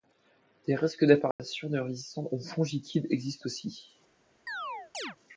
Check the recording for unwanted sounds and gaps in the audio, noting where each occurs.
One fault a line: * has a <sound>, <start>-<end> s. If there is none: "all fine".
* has a dropout, 1.3-1.4 s
* has a chirp, 4.5-5.2 s